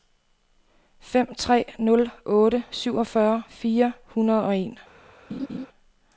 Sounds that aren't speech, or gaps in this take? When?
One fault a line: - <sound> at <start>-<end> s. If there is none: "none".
- laugh at 5.3-5.7 s